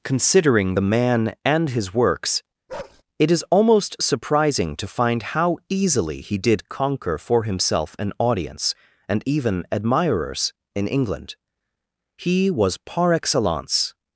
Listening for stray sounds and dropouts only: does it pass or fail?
fail